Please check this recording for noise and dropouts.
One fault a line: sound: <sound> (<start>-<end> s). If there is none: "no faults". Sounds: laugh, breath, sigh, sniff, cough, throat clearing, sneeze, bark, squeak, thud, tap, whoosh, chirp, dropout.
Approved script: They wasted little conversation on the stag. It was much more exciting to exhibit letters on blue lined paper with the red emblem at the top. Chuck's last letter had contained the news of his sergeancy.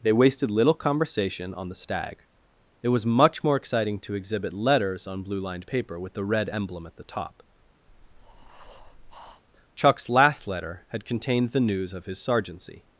sound: breath (7.9-9.4 s)